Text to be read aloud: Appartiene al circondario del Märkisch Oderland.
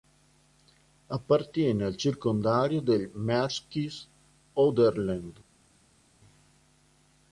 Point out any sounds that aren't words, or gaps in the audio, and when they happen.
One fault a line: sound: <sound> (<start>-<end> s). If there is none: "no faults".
no faults